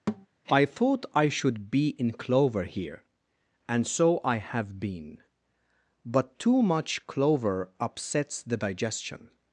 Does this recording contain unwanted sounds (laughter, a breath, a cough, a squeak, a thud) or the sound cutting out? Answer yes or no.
yes